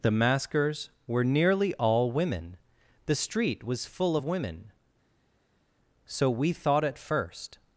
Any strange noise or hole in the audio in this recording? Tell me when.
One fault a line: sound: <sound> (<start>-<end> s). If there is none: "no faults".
no faults